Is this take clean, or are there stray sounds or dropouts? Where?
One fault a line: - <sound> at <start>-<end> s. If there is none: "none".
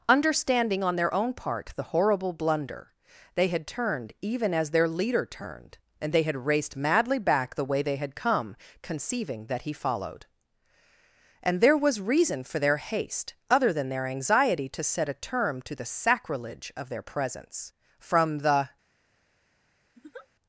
- laugh at 20.0-20.3 s